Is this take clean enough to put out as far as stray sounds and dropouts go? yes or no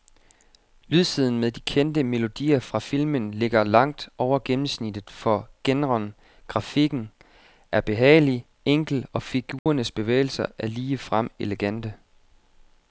no